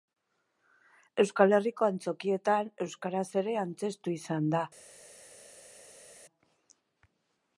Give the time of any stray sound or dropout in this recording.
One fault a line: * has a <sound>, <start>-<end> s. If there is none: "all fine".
all fine